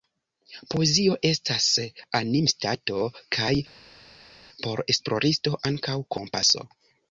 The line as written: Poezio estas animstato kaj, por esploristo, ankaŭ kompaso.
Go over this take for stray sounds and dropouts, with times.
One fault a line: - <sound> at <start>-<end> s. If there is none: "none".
none